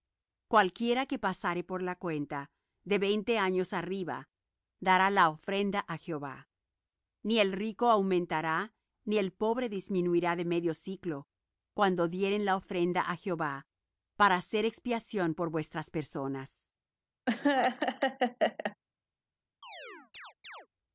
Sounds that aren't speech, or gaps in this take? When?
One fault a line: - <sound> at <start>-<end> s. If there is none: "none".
- laugh at 17.3-18.8 s
- chirp at 19.6-20.7 s